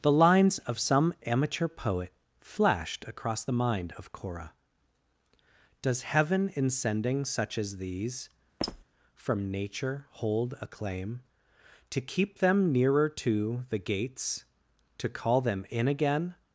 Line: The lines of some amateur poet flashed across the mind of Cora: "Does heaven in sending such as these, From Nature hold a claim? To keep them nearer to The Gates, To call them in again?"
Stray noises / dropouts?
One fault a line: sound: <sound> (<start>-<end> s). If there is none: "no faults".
sound: squeak (8.6-8.8 s)